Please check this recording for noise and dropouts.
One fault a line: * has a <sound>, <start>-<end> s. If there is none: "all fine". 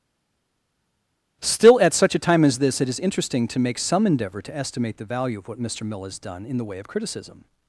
all fine